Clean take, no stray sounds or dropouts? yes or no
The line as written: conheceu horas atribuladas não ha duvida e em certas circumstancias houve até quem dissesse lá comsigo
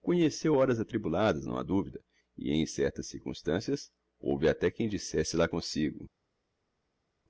yes